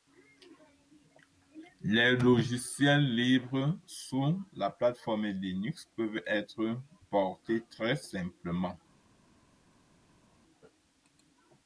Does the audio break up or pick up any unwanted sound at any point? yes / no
no